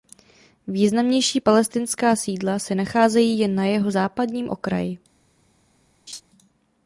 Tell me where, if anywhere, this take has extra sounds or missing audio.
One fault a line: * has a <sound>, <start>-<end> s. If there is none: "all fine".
* has a laugh, 6.1-6.2 s